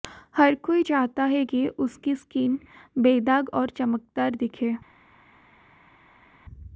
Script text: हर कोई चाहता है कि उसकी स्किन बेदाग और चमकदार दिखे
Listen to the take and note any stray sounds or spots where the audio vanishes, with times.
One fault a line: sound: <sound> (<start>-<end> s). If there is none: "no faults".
no faults